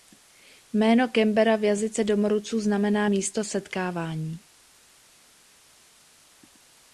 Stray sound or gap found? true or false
false